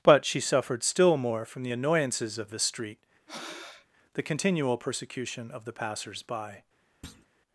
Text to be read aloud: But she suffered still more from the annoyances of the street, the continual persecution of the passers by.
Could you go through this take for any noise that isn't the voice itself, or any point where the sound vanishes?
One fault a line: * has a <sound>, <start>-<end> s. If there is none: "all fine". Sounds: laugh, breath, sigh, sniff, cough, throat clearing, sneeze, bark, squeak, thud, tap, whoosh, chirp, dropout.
* has a breath, 3.3-3.9 s
* has a thud, 7.0-7.3 s